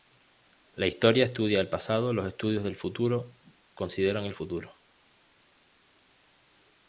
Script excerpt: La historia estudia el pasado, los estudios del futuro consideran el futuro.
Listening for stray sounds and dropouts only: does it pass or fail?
pass